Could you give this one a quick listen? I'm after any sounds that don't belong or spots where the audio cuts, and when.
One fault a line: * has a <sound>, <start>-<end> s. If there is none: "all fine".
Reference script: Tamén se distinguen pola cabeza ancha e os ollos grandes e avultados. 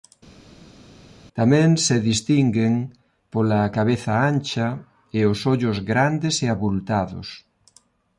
all fine